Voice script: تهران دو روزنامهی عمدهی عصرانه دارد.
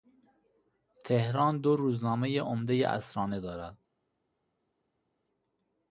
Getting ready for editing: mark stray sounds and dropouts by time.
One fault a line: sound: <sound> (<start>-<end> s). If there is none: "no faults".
no faults